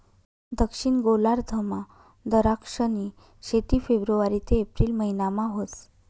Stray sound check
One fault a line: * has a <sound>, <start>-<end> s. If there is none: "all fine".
all fine